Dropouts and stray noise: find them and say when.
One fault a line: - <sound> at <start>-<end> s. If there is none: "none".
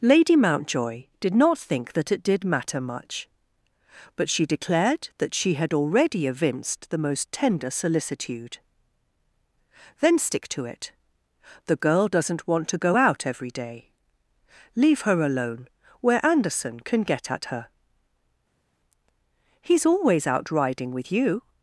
none